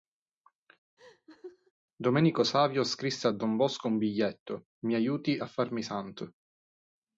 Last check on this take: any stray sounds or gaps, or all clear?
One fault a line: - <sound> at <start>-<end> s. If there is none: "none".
- laugh at 1.0-1.7 s